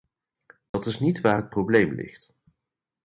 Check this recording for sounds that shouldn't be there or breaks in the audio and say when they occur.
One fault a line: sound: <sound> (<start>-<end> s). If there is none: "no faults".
sound: dropout (0.7-0.7 s)